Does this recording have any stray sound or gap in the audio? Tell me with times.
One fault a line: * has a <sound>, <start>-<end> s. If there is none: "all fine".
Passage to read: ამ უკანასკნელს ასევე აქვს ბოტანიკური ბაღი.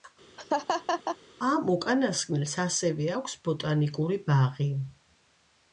* has a laugh, 0.4-1.2 s